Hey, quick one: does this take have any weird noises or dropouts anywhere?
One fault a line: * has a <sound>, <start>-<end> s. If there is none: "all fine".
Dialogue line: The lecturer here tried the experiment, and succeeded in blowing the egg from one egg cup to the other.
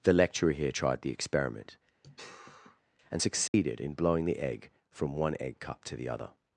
* has a sigh, 2.0-2.8 s
* has a dropout, 3.5-3.5 s